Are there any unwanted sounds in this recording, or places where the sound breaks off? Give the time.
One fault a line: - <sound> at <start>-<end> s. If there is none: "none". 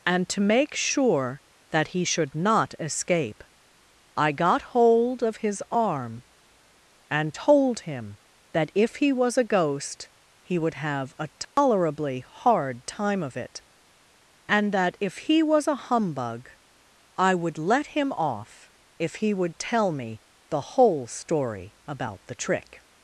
- dropout at 11.4-11.6 s